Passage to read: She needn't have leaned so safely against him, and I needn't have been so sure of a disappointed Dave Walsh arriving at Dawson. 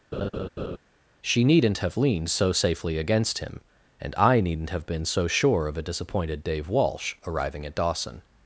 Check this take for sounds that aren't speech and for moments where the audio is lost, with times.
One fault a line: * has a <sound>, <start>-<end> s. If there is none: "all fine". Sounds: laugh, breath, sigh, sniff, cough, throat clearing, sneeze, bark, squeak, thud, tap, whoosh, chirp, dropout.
* has a laugh, 0.1-0.8 s